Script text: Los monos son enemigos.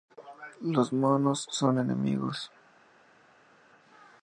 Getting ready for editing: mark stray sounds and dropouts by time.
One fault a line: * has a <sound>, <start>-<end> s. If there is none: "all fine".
all fine